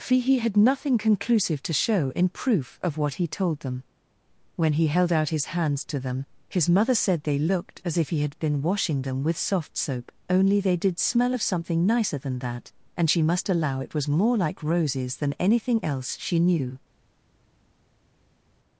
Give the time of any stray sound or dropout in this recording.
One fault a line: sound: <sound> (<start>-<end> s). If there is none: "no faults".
no faults